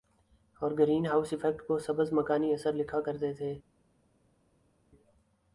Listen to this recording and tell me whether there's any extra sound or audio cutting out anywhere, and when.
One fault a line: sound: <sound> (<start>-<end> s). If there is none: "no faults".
no faults